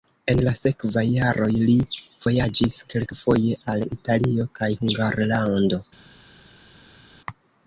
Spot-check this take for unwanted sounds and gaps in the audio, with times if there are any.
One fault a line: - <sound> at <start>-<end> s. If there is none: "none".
none